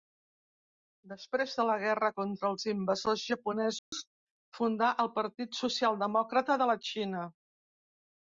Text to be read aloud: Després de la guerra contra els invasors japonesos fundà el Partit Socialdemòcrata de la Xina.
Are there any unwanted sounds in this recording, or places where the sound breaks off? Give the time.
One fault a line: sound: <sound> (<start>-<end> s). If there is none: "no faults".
sound: dropout (3.8-3.9 s)